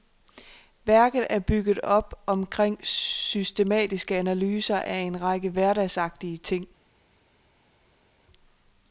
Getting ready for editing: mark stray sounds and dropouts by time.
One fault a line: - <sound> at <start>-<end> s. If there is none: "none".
none